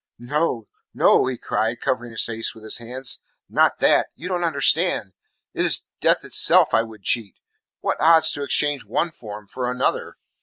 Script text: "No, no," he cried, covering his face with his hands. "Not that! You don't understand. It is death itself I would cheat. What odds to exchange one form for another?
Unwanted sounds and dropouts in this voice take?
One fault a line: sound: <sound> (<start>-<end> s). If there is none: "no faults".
no faults